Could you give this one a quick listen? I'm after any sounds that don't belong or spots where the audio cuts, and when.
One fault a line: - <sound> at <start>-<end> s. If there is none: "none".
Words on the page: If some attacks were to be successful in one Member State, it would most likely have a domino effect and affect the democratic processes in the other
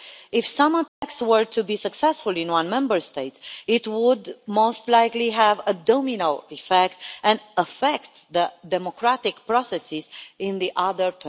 - dropout at 0.9-1.0 s